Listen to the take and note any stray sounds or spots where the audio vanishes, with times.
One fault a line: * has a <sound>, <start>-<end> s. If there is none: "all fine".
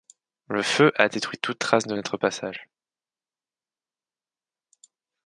all fine